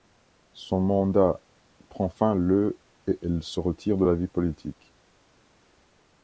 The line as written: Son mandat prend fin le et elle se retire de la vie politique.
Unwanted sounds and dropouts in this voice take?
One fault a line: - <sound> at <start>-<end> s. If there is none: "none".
none